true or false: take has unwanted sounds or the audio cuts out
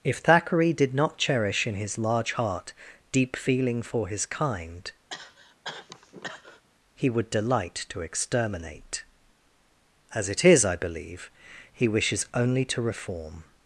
true